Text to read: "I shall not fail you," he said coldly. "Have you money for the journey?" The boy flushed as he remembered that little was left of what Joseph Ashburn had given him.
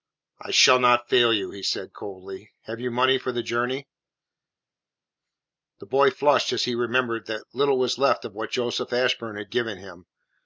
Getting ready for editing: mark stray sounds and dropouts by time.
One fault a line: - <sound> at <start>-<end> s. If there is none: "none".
none